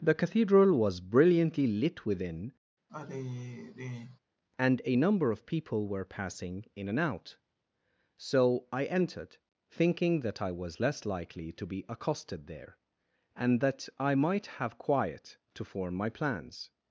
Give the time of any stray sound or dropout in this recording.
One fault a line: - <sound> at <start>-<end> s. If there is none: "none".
- sigh at 2.9-4.2 s